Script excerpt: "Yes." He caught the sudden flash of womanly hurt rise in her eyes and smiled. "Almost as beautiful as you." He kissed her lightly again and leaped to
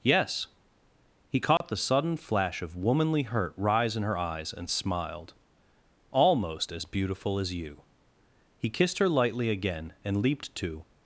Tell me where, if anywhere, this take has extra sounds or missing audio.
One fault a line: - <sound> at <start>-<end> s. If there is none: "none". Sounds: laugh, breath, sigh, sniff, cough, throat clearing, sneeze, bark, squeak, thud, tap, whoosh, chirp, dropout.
- dropout at 1.6-1.6 s